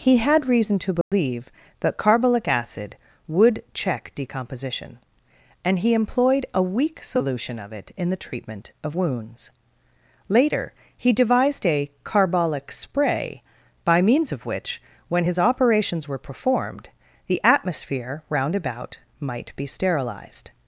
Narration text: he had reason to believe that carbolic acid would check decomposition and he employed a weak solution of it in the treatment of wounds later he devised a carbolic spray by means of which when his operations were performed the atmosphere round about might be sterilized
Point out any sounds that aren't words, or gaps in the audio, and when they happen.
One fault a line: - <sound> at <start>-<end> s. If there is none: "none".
- dropout at 1.0-1.1 s